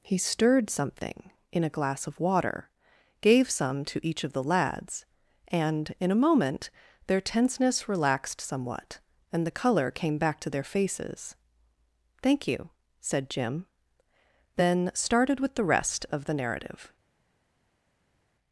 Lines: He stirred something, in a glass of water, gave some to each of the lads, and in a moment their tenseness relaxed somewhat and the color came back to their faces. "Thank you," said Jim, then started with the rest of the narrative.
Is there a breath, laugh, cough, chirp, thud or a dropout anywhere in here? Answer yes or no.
no